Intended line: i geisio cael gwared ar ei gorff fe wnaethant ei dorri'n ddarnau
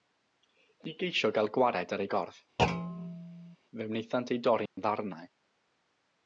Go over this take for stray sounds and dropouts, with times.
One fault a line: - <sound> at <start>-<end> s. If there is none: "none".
- thud at 2.6-3.6 s
- dropout at 4.7-4.8 s